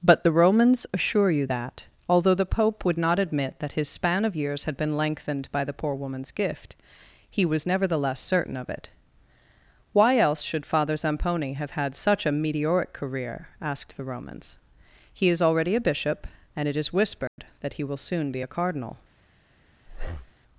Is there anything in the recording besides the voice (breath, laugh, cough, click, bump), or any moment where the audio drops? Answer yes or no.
yes